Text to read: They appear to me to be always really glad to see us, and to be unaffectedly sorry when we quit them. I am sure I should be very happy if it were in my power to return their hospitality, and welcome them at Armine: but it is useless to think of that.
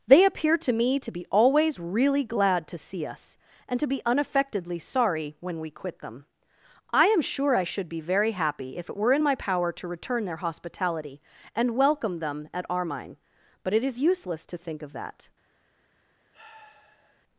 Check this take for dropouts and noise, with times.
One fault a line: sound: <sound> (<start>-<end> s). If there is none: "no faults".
sound: sigh (16.3-17.2 s)